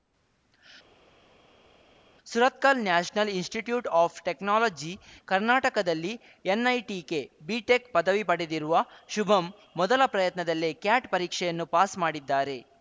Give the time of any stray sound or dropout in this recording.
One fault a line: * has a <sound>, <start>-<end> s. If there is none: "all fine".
all fine